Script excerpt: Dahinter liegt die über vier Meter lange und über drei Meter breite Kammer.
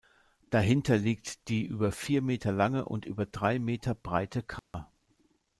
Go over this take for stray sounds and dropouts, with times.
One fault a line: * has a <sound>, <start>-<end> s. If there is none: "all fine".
* has a dropout, 4.6-4.7 s